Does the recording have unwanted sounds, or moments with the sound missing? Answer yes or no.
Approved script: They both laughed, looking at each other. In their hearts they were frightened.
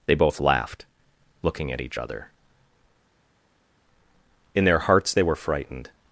no